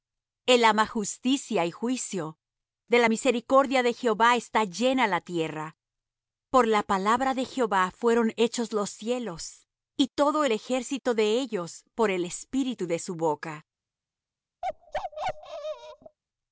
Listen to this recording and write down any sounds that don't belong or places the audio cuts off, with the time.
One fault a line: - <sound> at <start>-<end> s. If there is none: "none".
- bark at 14.6-16.2 s